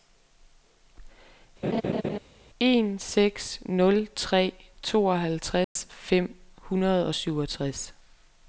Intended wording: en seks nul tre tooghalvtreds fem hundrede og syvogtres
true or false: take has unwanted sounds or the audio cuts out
true